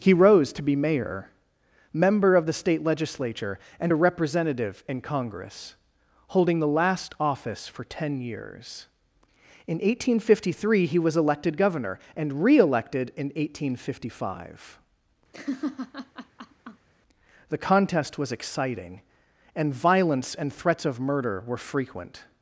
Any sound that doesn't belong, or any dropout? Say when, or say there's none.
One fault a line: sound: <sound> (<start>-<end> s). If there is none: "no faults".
sound: laugh (15.3-16.9 s)